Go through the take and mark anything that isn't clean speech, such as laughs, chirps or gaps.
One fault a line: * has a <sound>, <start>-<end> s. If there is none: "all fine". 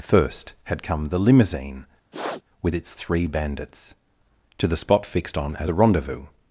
* has a sniff, 2.1-2.4 s